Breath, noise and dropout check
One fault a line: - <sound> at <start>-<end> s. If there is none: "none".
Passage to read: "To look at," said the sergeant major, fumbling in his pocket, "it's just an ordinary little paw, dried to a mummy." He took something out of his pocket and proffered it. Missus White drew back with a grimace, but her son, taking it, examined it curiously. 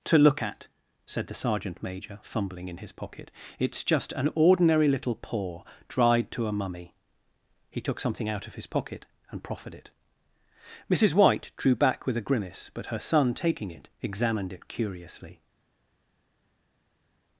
none